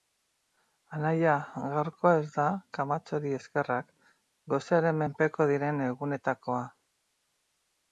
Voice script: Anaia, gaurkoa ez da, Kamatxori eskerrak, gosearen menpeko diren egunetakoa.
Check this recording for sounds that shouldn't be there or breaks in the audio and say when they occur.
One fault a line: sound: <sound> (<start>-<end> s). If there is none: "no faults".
no faults